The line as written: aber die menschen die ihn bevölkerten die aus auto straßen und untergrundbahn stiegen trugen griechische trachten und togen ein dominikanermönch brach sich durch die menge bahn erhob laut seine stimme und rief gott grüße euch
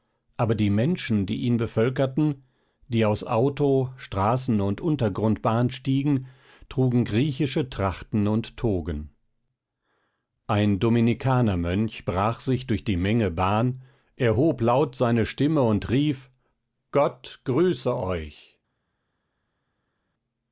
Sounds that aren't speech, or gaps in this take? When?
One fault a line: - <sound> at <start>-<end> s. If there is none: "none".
none